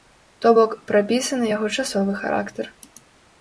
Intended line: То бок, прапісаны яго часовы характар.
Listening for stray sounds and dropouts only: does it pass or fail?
pass